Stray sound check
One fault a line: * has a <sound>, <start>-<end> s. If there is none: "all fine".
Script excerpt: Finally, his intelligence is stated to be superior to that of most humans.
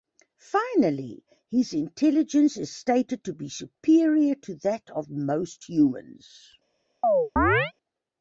* has a chirp, 7.0-7.7 s